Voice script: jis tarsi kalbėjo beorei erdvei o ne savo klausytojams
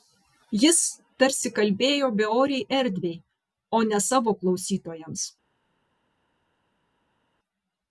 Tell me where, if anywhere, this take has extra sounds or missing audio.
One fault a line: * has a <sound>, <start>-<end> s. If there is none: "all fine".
all fine